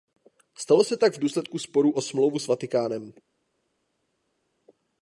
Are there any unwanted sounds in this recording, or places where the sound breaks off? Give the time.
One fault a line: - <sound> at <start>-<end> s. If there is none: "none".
none